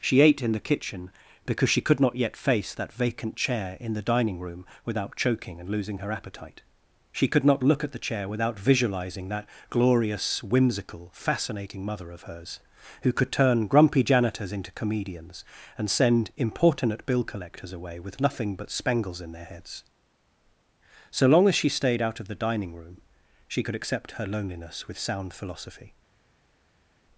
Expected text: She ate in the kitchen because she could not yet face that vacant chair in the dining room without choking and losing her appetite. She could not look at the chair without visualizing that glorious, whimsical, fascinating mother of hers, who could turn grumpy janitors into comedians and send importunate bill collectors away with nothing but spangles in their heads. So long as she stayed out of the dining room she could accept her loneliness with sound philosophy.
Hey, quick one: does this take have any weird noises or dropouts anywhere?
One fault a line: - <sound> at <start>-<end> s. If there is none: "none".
none